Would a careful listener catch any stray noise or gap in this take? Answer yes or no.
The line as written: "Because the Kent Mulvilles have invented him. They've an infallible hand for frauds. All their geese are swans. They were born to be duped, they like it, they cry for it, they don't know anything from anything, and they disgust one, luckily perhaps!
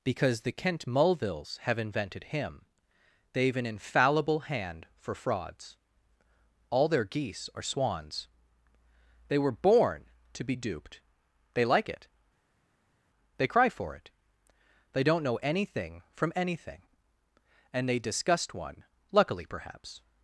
no